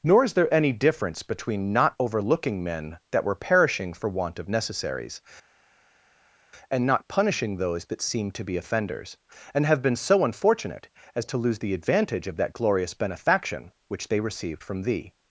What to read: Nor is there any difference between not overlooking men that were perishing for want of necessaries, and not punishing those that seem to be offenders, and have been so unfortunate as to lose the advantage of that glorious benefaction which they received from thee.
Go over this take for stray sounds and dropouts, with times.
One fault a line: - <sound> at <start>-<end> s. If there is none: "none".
none